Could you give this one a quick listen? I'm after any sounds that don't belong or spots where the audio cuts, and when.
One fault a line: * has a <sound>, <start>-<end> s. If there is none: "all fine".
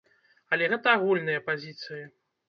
all fine